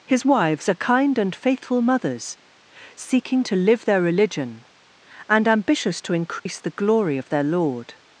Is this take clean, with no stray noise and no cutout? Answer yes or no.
no